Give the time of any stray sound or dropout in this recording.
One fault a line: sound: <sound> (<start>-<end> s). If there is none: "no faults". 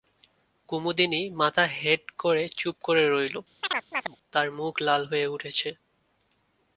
sound: chirp (3.6-4.2 s)